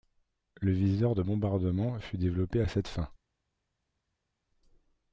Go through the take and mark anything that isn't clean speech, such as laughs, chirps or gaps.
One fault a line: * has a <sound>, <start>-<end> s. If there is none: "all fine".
all fine